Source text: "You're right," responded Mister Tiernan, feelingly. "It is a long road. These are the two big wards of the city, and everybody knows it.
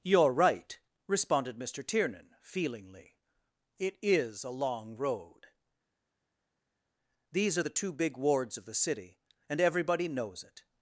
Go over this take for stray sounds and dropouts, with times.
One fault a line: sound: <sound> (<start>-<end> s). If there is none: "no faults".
no faults